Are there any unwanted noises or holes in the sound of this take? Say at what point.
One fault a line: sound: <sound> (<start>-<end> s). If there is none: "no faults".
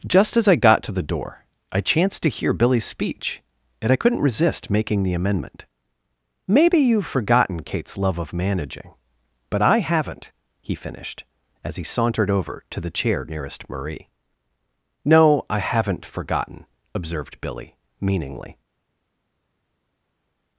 no faults